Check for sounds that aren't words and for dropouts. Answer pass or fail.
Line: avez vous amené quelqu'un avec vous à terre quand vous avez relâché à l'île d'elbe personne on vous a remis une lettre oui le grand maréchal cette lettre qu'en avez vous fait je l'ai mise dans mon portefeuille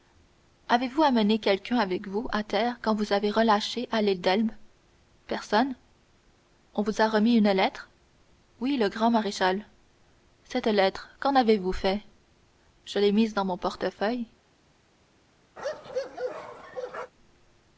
fail